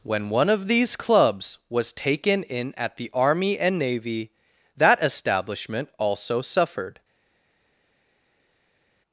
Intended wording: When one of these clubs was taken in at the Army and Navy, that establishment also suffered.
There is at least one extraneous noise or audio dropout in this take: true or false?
false